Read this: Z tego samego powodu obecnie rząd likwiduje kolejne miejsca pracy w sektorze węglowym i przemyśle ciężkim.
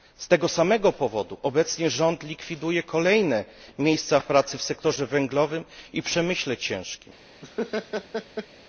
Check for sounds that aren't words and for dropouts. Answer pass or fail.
fail